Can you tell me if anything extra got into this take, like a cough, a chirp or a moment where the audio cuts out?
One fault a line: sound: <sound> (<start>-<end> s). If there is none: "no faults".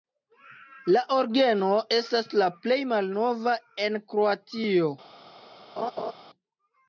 sound: laugh (5.8-6.1 s)